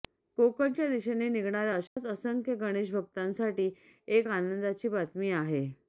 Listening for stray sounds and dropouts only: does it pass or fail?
fail